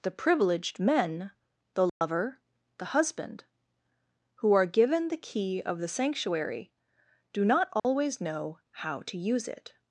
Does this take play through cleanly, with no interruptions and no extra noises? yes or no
no